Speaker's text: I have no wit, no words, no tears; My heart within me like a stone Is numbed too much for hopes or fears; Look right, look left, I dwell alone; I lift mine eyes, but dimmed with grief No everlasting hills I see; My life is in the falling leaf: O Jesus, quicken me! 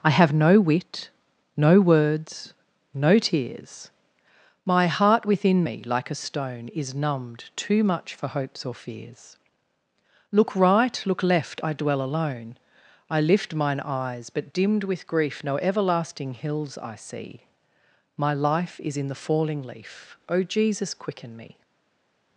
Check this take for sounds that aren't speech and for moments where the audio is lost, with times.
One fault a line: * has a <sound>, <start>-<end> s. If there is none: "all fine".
all fine